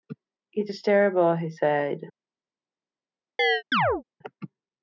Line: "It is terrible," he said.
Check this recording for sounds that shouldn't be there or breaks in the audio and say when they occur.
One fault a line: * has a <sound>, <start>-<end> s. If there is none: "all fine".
* has a chirp, 3.4-4.0 s